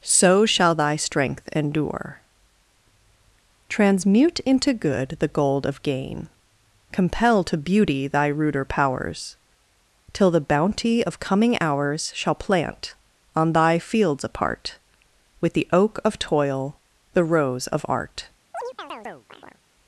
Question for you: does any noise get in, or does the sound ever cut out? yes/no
yes